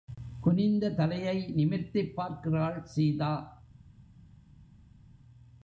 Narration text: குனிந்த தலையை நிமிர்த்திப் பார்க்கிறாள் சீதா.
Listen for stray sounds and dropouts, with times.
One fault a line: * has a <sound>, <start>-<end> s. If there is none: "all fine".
all fine